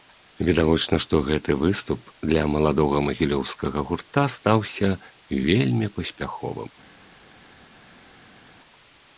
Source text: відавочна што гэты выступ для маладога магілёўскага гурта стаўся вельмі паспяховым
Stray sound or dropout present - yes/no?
no